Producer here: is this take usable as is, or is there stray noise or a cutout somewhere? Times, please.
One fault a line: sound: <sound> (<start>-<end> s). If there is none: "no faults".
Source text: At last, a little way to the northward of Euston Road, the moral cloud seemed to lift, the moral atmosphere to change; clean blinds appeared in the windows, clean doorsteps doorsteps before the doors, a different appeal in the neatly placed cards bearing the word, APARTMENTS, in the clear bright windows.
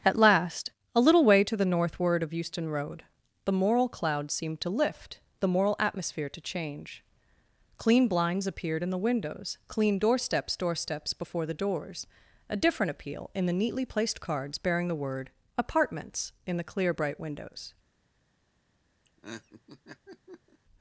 sound: laugh (19.0-20.6 s)